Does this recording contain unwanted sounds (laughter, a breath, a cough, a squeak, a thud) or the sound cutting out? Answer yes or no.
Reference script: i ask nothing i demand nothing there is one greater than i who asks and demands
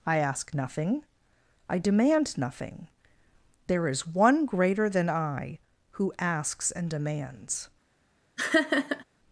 yes